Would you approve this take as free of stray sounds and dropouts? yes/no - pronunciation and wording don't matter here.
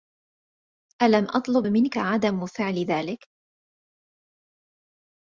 yes